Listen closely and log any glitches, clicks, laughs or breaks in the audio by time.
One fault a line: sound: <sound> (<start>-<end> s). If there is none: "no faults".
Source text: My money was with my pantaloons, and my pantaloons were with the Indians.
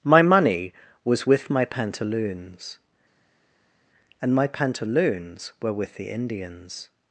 no faults